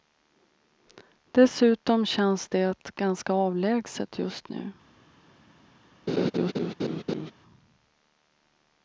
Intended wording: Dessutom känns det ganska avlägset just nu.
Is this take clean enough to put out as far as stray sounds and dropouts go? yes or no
no